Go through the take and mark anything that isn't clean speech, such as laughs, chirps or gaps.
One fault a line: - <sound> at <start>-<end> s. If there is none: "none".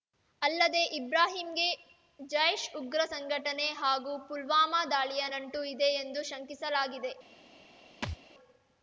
- thud at 8.0-8.2 s